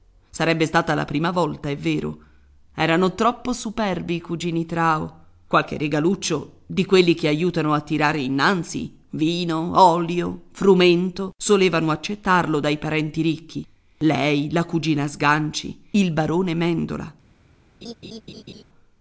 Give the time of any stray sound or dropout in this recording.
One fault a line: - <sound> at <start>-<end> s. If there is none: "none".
- laugh at 17.8-18.6 s